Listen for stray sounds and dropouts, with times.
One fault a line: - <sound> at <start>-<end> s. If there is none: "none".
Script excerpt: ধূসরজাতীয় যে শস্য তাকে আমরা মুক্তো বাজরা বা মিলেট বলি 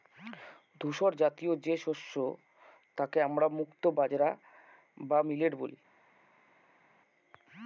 none